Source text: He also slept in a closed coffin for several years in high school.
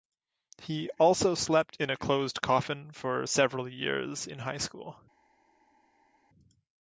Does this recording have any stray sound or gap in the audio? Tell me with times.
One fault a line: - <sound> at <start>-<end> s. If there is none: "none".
none